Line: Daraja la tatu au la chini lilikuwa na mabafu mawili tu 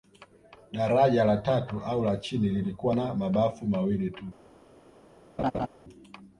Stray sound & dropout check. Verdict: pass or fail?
fail